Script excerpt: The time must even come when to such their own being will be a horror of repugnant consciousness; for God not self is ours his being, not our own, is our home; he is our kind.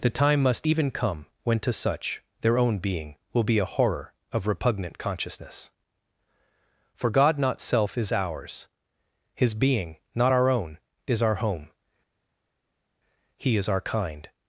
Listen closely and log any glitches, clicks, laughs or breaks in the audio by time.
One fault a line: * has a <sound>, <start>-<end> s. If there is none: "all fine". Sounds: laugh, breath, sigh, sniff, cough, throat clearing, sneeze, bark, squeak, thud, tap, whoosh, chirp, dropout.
all fine